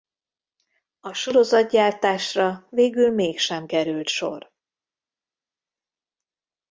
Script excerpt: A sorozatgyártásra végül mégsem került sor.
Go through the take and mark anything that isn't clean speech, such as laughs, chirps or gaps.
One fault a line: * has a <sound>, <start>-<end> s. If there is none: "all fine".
all fine